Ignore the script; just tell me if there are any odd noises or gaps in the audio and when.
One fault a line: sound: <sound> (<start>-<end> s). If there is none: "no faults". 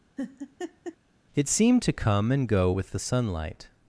sound: laugh (0.2-1.0 s)